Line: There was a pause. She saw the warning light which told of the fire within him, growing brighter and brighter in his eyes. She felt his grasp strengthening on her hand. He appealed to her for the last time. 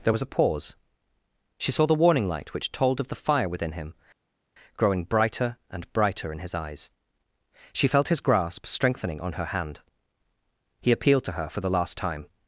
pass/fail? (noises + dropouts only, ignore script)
pass